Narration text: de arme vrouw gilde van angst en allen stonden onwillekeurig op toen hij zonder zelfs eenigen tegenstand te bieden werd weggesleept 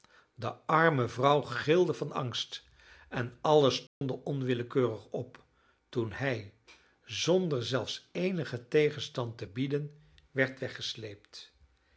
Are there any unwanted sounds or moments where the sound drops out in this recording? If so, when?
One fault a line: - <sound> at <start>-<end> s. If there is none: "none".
- dropout at 3.9-4.0 s